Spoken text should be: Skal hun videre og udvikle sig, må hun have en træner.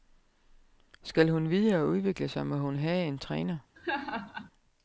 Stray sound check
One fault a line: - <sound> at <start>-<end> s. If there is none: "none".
- laugh at 3.8-4.5 s